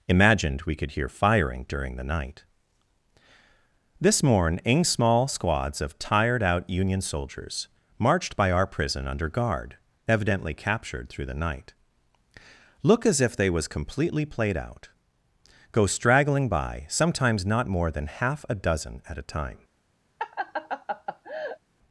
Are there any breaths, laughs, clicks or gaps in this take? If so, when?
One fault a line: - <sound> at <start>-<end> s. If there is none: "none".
- laugh at 20.2-21.6 s